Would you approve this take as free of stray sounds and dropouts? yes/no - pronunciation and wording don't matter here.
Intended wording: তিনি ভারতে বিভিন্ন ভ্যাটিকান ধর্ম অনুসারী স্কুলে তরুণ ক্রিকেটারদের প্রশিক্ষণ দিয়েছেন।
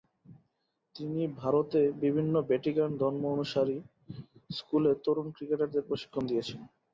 yes